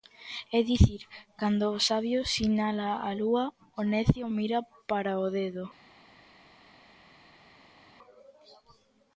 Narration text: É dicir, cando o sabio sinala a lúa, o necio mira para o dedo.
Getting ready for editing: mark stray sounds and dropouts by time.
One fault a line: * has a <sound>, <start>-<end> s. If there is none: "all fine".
all fine